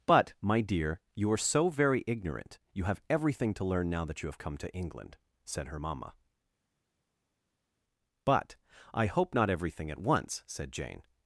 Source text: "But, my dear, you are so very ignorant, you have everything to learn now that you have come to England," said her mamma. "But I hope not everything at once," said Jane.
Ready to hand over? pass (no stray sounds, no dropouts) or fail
pass